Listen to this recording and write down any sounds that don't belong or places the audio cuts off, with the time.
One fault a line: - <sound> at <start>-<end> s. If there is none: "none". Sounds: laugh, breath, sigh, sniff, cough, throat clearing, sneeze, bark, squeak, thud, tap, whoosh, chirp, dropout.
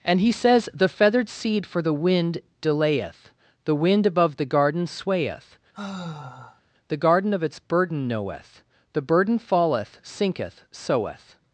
- sigh at 5.7-6.6 s